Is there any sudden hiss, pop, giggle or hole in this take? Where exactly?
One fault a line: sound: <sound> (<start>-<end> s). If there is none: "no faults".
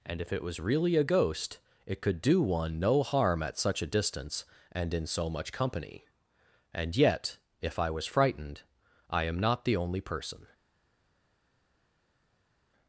no faults